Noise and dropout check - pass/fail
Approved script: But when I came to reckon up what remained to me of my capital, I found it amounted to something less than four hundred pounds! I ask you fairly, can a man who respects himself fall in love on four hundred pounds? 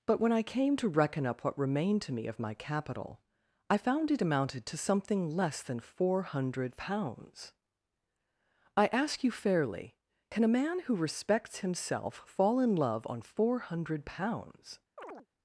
fail